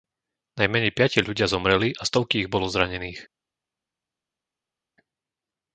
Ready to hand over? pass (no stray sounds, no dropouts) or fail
pass